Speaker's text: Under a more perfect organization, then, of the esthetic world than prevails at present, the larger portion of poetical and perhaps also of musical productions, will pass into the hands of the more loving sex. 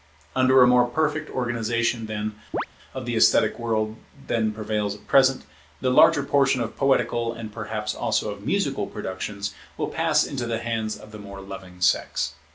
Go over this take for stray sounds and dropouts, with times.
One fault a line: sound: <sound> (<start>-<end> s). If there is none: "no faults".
sound: chirp (2.5-2.7 s)